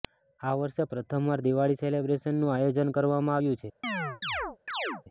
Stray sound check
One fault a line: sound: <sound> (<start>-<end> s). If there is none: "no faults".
sound: chirp (3.8-5.0 s)